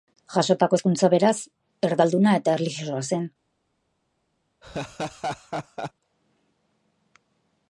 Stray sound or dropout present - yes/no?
yes